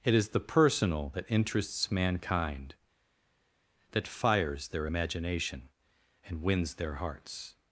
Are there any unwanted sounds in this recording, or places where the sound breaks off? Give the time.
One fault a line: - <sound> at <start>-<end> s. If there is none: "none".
none